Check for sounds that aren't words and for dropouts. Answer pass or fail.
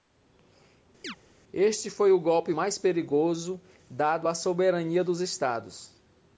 fail